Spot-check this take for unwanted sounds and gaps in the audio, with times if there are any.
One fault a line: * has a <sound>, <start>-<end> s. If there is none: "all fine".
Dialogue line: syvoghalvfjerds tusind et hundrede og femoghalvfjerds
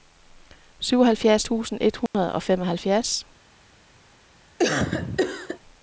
* has a dropout, 2.1-2.1 s
* has a cough, 4.6-5.6 s